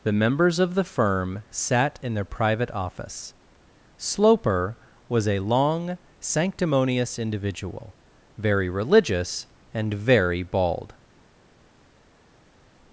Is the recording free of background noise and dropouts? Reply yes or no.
yes